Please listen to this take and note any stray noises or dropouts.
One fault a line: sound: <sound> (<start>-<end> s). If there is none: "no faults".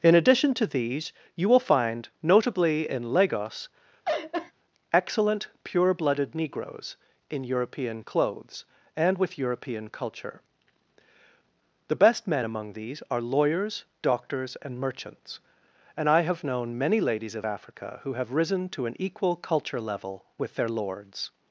sound: laugh (4.0-4.5 s)